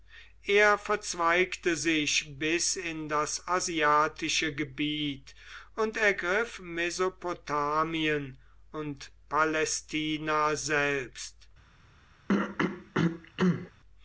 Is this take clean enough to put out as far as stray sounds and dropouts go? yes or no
no